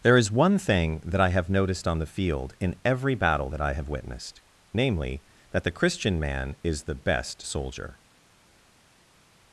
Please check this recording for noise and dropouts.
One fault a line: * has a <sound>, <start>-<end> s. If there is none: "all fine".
all fine